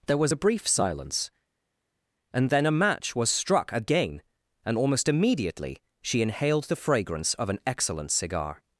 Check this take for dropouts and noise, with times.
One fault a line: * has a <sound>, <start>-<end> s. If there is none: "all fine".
all fine